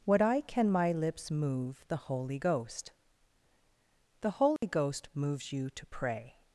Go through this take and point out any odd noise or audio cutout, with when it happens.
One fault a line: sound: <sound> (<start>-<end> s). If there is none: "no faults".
sound: dropout (4.6-4.6 s)